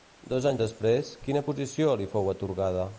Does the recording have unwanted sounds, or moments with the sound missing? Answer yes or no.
no